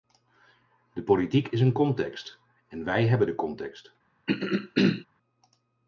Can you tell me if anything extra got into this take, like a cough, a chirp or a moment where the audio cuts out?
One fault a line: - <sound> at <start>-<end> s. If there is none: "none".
- throat clearing at 4.3-5.1 s